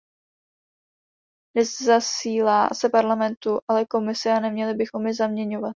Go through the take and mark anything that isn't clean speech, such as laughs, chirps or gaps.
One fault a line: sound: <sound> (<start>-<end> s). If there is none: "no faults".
no faults